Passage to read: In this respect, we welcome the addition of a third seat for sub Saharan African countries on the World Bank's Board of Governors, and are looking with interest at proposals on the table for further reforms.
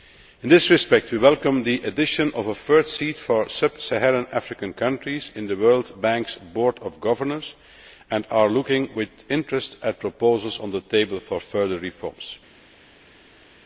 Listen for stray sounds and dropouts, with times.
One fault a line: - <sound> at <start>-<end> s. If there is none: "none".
none